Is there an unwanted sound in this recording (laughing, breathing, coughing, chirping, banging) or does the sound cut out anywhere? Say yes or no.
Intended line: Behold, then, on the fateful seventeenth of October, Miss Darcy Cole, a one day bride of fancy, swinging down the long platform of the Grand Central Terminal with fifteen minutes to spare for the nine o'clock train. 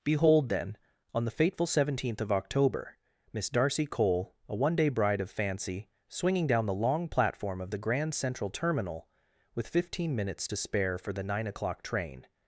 no